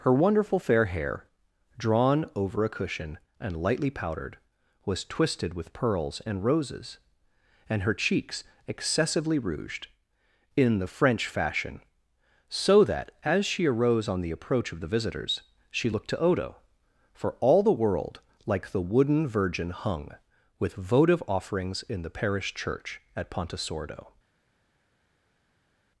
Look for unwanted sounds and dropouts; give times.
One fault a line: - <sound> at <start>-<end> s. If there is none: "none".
none